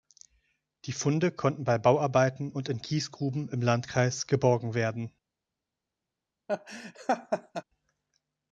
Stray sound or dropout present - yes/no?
yes